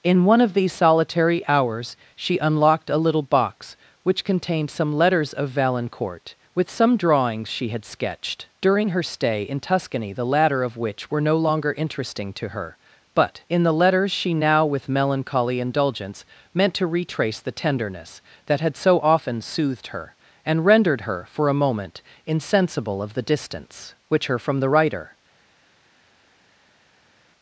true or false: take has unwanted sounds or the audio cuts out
false